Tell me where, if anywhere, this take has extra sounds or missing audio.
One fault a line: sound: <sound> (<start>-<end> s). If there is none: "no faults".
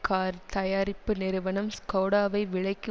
no faults